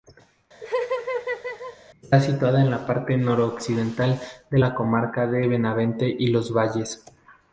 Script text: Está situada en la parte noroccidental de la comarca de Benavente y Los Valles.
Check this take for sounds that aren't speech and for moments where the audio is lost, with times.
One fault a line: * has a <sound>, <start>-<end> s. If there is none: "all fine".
* has a laugh, 0.6-1.8 s